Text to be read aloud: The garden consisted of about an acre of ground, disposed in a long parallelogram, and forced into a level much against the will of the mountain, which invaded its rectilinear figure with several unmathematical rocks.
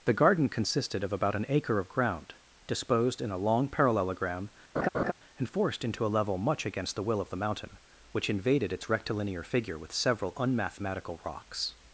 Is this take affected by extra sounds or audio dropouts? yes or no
yes